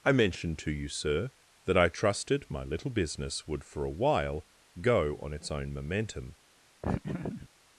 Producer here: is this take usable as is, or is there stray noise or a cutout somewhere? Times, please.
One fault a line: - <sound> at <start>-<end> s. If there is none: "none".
- laugh at 6.8-7.5 s